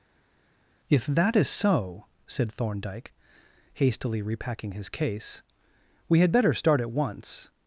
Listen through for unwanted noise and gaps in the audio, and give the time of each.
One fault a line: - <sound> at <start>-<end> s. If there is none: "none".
none